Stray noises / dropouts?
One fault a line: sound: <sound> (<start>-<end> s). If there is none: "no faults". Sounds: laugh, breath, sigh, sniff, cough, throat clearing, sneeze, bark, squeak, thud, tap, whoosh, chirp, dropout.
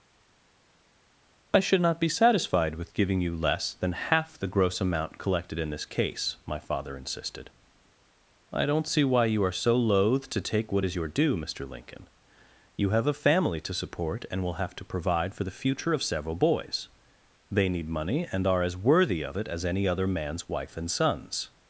no faults